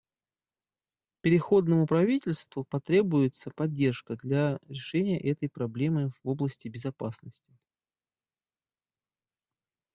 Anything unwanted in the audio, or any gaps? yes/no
no